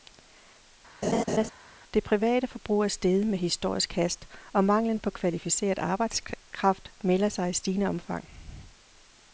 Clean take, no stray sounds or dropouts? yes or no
no